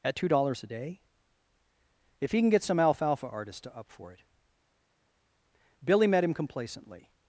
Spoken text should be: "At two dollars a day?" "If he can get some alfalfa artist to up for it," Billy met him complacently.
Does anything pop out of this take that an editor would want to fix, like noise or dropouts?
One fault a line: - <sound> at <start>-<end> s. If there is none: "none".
none